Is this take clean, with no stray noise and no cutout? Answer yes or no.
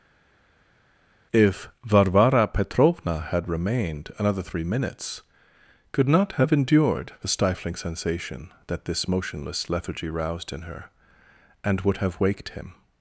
yes